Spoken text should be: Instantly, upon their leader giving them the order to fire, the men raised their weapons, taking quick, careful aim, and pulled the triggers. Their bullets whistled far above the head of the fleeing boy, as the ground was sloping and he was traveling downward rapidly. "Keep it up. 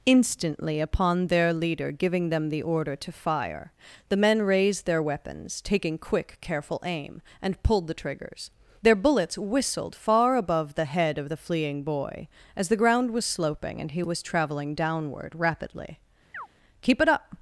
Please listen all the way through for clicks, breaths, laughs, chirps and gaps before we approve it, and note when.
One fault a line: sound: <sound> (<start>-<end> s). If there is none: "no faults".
sound: chirp (16.3-16.5 s)